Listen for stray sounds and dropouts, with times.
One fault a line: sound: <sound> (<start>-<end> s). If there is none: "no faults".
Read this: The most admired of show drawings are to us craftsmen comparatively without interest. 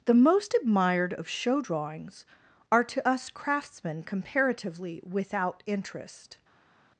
no faults